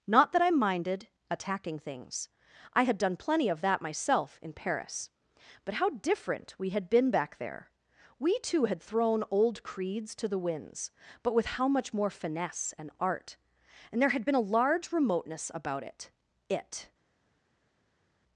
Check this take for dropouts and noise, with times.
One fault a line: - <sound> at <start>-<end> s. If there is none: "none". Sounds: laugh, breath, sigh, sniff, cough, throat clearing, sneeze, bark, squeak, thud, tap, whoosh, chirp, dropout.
none